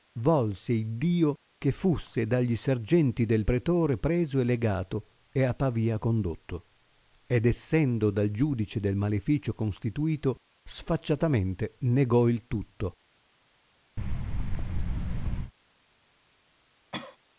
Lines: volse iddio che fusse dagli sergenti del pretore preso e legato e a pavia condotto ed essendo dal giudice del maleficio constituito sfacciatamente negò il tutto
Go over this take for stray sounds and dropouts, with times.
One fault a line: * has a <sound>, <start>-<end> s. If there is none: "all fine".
* has a thud, 14.0-15.5 s
* has a cough, 16.9-17.2 s